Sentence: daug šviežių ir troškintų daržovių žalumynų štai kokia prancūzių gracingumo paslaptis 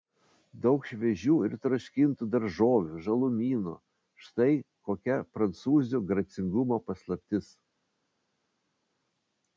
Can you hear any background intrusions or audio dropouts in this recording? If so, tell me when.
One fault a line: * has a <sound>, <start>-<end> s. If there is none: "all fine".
all fine